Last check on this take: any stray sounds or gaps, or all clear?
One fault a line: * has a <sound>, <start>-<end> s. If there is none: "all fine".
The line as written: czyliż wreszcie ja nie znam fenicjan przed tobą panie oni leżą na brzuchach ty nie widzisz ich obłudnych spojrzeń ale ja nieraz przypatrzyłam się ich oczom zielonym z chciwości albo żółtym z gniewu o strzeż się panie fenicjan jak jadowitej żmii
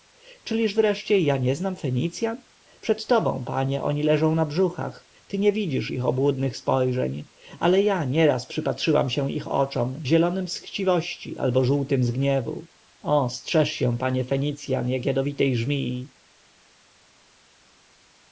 all fine